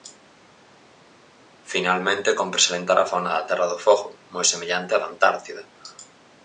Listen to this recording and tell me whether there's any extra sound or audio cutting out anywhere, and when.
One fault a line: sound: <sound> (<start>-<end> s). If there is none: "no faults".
no faults